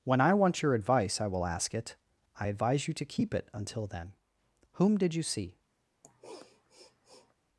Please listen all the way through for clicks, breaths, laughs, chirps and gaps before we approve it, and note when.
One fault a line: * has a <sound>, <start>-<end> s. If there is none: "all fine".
* has a sniff, 6.0-7.3 s